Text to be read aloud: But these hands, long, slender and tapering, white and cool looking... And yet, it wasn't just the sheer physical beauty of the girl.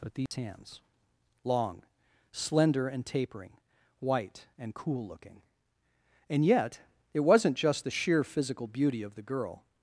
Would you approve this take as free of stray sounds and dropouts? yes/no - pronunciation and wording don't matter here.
no